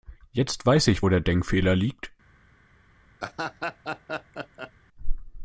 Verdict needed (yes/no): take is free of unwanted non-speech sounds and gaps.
no